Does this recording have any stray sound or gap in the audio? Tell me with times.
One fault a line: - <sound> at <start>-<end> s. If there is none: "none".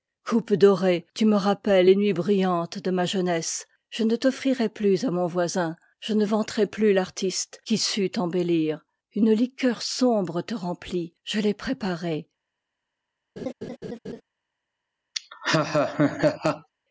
- laugh at 13.4-14.2 s
- laugh at 15.1-16.7 s